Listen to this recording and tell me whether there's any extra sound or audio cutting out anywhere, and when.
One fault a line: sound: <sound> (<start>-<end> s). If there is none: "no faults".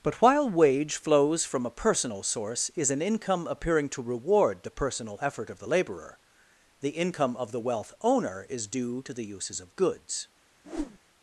sound: whoosh (10.6-11.0 s)